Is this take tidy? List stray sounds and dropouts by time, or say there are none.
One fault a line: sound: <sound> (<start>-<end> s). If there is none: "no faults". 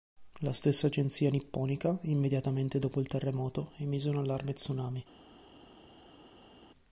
no faults